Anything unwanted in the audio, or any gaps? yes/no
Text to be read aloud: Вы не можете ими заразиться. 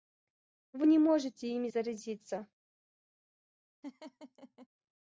yes